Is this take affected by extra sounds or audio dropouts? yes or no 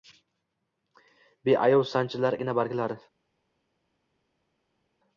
no